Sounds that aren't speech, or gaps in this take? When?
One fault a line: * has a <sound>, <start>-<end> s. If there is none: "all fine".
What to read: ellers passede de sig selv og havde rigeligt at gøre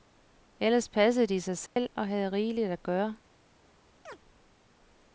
* has a dropout, 1.7-1.8 s
* has a chirp, 4.1-4.2 s